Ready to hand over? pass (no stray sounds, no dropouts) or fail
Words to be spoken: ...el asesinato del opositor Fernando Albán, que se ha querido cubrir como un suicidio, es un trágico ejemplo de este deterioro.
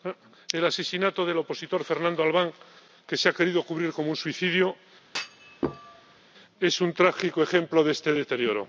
fail